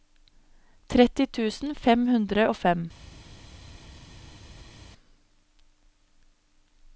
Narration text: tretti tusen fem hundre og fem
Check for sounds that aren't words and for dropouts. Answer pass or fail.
pass